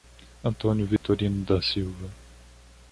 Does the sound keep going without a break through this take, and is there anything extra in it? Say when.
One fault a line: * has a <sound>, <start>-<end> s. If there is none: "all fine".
* has a dropout, 1.0-1.0 s